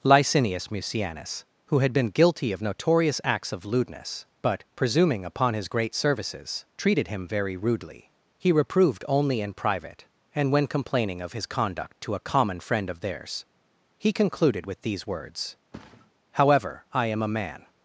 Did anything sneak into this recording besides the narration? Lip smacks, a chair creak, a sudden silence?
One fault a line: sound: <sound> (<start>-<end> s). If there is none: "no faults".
sound: thud (15.7-16.1 s)